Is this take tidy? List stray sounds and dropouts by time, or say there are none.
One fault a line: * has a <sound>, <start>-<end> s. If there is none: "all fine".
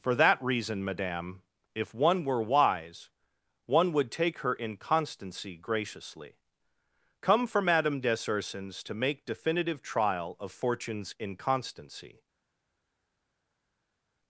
all fine